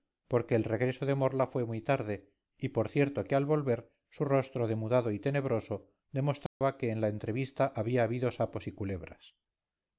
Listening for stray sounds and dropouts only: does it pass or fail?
fail